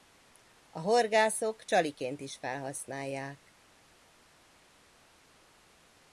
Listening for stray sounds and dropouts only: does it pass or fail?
pass